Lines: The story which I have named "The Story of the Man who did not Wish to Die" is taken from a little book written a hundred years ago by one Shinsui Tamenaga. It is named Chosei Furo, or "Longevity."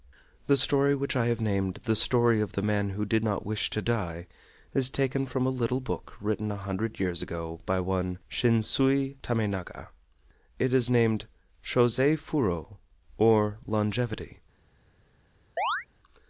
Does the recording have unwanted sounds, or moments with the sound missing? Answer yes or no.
yes